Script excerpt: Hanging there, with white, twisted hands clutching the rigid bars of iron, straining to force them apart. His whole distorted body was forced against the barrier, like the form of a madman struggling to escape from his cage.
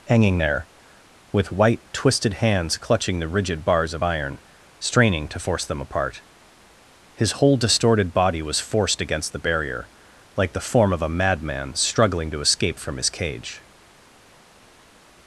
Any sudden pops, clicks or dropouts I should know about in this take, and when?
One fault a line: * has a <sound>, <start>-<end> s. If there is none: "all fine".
all fine